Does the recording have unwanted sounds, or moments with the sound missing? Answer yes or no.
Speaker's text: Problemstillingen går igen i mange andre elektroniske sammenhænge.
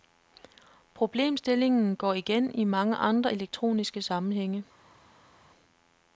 no